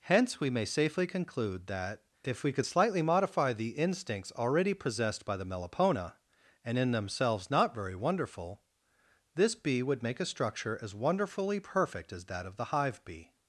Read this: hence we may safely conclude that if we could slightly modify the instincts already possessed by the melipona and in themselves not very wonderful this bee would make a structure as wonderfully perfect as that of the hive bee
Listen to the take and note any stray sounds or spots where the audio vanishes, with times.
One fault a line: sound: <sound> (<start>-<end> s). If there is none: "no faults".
no faults